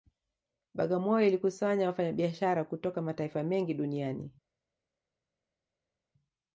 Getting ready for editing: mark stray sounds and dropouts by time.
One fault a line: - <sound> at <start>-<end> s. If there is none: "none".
none